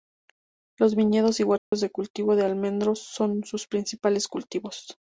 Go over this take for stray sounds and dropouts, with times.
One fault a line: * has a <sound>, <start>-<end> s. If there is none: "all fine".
* has a dropout, 1.6-1.7 s